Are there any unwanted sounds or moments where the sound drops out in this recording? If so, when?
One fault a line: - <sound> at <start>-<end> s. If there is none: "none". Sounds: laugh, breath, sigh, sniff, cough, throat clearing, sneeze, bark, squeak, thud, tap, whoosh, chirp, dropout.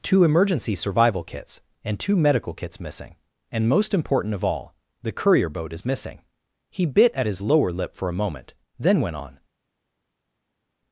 none